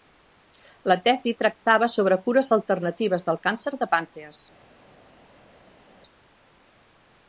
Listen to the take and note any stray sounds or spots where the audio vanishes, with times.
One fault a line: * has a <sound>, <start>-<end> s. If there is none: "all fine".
all fine